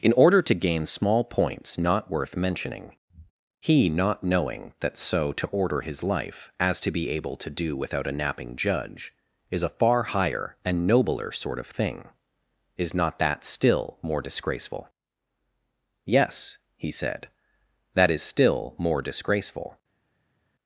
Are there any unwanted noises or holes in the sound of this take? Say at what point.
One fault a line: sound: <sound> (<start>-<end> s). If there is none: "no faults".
no faults